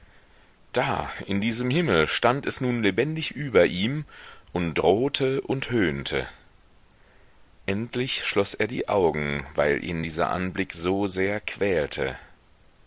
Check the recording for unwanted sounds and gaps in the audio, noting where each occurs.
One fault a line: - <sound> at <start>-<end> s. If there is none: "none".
none